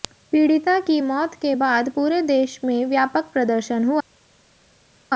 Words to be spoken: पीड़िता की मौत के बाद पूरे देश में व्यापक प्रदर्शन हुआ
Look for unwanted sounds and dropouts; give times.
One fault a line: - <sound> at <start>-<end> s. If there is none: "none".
none